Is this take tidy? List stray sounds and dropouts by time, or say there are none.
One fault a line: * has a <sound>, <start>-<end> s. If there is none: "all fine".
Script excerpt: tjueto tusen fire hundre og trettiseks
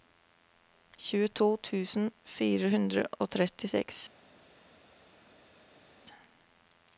all fine